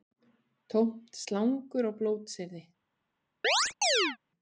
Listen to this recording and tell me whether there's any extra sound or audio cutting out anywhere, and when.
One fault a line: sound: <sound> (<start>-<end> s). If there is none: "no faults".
sound: chirp (3.4-4.2 s)